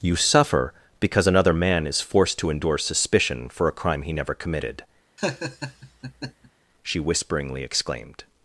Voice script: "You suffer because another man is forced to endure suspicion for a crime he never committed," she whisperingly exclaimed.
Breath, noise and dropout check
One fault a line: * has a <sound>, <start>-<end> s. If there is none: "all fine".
* has a laugh, 5.2-6.5 s